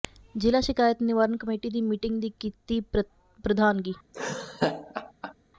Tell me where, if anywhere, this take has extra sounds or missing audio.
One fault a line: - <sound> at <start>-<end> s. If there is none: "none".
- laugh at 4.1-5.3 s